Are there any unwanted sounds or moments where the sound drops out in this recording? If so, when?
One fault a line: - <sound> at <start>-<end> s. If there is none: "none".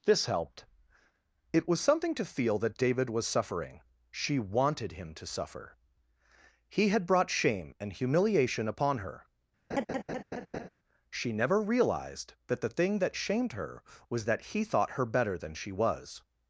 - laugh at 9.7-10.7 s